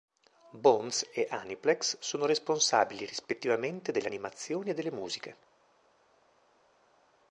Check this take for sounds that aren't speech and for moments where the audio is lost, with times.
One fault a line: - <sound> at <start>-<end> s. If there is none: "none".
none